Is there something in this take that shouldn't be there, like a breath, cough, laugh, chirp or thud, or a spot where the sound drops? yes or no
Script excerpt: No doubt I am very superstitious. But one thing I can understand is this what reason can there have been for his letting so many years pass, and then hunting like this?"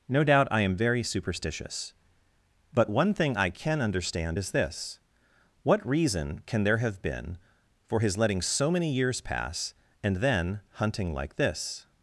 no